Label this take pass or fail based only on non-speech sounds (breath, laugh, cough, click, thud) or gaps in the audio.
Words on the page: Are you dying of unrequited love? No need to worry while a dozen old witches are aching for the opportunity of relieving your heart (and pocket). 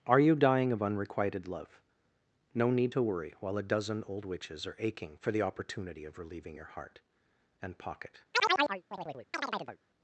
fail